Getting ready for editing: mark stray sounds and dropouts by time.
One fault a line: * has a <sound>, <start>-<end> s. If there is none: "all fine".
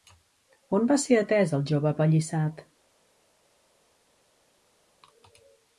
all fine